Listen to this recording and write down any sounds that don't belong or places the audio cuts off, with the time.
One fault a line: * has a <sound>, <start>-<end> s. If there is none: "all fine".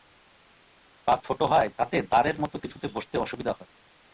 all fine